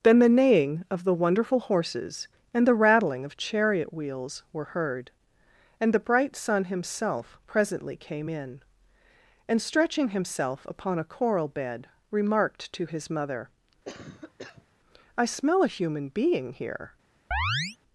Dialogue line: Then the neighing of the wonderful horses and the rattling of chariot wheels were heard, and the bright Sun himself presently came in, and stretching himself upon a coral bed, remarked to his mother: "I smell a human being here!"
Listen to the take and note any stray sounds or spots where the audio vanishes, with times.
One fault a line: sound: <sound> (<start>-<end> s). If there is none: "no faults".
sound: cough (13.8-14.7 s)
sound: chirp (17.3-17.8 s)